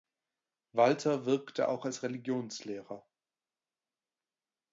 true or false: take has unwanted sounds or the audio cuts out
false